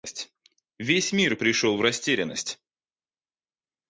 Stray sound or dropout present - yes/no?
no